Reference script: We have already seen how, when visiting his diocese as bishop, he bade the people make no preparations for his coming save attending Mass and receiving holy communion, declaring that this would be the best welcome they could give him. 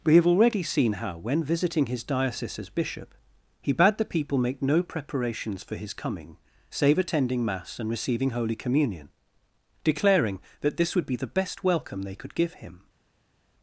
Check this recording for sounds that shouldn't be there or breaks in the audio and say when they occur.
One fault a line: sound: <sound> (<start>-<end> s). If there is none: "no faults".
no faults